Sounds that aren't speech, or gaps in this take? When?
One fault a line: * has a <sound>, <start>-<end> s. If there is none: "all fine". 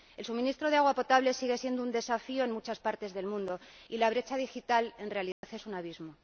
* has a dropout, 5.3-5.4 s